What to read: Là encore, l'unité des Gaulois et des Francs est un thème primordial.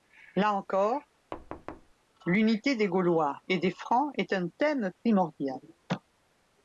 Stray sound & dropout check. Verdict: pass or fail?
fail